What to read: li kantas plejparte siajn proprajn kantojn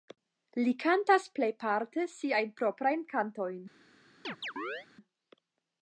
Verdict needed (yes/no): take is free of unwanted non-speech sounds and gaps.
no